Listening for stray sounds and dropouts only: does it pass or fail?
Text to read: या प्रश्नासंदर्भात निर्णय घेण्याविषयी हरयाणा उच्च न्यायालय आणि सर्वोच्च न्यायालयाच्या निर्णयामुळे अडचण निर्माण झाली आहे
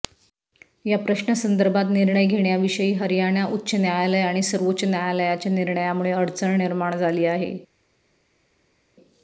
pass